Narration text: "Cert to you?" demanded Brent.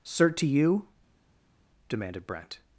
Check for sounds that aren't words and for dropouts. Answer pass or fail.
pass